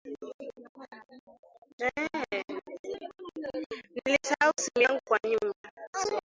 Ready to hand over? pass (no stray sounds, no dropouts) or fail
fail